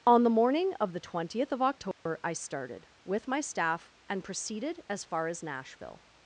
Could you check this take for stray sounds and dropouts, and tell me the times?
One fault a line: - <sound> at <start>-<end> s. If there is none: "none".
- dropout at 1.9-2.1 s